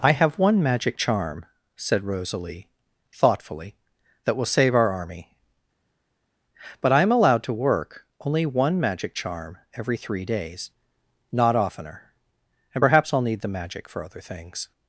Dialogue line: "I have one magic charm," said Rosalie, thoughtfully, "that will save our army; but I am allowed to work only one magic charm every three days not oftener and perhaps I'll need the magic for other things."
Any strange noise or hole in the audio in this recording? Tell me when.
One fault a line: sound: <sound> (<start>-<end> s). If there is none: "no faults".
no faults